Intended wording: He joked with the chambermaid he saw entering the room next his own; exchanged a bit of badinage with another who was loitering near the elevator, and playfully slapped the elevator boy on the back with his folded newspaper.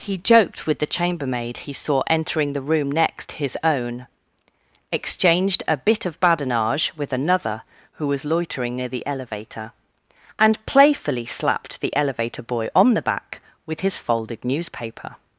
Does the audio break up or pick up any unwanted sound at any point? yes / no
no